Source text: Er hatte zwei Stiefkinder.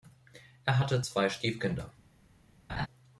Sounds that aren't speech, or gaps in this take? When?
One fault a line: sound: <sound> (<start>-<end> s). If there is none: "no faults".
sound: laugh (2.7-2.9 s)